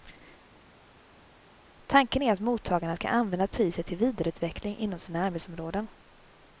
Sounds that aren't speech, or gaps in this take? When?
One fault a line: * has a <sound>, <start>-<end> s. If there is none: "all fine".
all fine